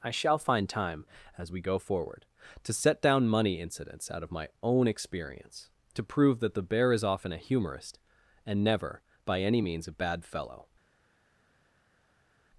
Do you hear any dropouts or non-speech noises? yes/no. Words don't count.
no